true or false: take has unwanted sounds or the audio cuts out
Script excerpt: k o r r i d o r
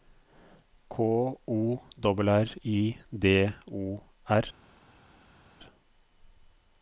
false